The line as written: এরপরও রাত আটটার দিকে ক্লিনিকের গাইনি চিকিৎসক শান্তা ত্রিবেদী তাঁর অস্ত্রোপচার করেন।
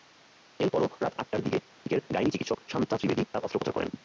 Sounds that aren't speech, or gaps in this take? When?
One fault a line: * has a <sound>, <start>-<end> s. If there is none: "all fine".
* has a dropout, 1.7-1.9 s